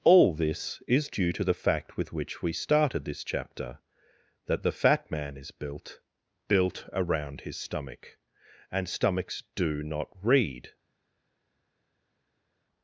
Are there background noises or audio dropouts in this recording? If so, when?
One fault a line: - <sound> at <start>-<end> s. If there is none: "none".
none